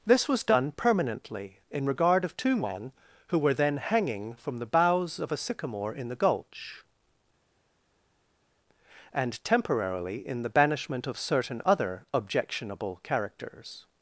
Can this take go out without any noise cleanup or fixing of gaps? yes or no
yes